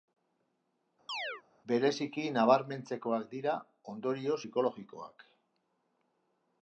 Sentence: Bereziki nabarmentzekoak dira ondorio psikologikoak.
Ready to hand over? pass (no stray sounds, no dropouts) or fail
fail